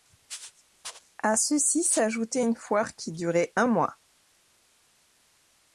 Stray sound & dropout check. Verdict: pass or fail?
pass